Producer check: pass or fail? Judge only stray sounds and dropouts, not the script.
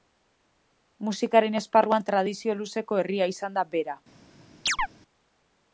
fail